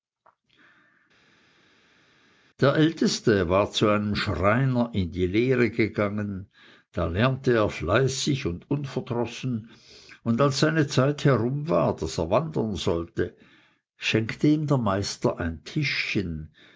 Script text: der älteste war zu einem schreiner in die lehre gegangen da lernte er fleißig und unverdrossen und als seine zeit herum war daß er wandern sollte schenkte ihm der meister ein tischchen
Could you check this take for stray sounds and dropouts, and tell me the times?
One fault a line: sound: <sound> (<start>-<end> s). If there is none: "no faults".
no faults